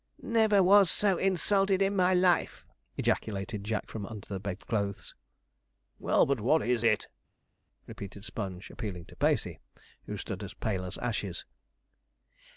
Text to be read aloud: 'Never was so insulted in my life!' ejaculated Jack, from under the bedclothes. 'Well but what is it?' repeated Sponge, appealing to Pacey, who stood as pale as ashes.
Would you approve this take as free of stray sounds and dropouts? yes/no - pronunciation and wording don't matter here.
yes